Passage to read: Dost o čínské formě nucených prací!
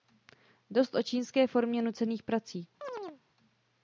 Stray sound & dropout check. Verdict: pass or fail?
fail